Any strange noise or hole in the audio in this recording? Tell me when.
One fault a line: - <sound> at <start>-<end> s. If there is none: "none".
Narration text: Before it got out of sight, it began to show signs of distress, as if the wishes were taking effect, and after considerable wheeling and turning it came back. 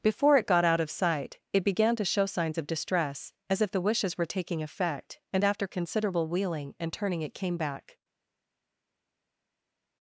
none